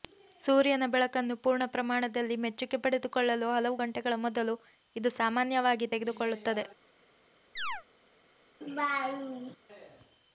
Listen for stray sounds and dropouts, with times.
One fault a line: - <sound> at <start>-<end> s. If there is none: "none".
- chirp at 7.6-7.8 s
- laugh at 8.6-9.6 s